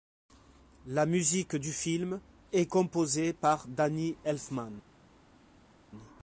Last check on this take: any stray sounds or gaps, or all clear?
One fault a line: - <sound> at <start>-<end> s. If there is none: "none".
none